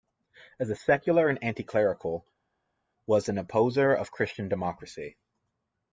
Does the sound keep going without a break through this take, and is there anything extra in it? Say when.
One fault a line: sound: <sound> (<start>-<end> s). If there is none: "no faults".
no faults